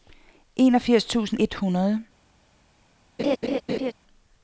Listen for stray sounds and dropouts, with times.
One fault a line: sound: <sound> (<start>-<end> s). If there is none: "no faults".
sound: laugh (3.2-3.9 s)